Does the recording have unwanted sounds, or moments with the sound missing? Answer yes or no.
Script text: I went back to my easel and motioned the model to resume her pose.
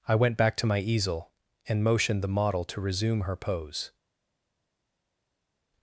no